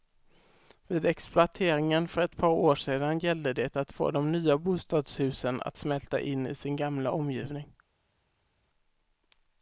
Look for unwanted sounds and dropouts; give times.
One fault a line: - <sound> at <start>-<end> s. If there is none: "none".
none